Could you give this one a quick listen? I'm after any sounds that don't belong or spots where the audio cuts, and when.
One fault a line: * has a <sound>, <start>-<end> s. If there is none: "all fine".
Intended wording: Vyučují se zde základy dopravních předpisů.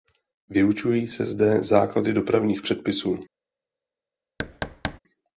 * has a thud, 4.4-5.0 s